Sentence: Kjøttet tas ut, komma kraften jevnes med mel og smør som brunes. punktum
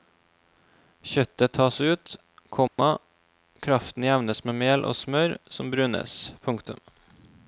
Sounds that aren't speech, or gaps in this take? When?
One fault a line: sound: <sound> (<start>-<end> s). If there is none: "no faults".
sound: dropout (2.7-2.8 s)